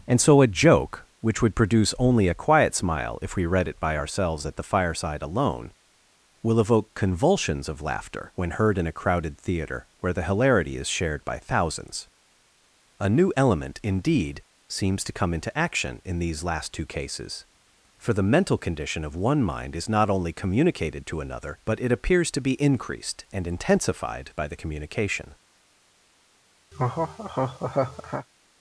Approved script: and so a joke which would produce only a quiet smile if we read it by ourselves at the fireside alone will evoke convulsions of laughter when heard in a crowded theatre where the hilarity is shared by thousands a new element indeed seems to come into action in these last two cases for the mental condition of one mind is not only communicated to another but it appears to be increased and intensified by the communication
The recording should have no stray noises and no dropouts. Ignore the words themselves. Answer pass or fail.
fail